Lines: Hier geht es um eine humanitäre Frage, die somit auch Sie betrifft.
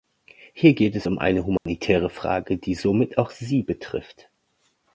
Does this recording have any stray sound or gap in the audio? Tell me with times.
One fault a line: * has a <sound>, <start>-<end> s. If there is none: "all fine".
* has a dropout, 1.6-1.7 s